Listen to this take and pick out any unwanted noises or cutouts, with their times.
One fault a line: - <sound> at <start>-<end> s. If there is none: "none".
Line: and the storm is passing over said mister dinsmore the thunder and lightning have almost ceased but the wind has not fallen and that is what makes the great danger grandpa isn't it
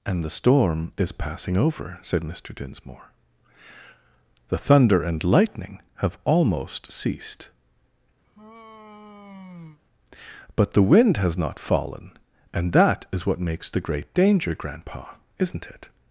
- sigh at 8.2-9.8 s